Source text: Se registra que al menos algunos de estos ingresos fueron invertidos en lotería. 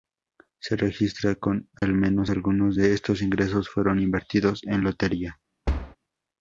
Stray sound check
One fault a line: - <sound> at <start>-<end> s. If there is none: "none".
- dropout at 1.8-1.8 s
- thud at 5.7-6.0 s